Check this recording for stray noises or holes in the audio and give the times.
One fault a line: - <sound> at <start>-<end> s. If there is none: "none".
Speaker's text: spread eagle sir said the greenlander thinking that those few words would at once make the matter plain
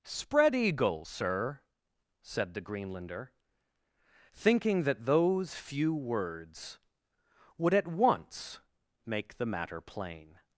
none